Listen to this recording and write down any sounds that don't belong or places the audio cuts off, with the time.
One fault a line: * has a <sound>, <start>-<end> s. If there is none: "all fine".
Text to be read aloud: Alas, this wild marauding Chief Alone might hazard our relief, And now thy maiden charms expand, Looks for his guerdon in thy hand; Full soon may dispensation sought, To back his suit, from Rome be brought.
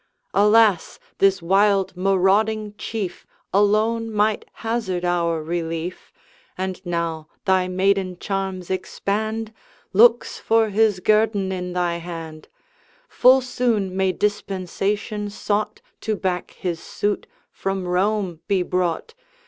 all fine